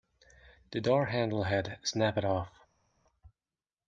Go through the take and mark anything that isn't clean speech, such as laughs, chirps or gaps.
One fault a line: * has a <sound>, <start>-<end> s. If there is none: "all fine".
all fine